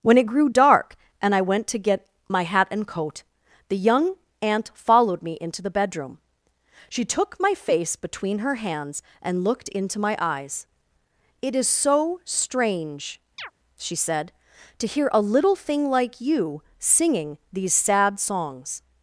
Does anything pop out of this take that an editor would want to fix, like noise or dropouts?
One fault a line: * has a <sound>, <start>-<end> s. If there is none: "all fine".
* has a chirp, 13.4-13.5 s